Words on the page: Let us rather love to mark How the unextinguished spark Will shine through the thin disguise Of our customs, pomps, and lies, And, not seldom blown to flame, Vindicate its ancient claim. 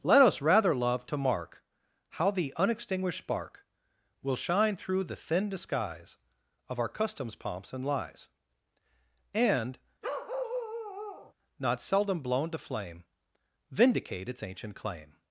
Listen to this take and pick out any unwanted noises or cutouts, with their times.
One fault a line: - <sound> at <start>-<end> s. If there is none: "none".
- bark at 10.0-11.3 s